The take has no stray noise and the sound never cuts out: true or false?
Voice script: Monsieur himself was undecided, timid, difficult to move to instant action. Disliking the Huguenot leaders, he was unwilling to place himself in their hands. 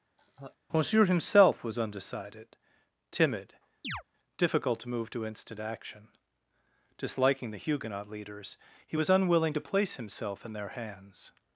false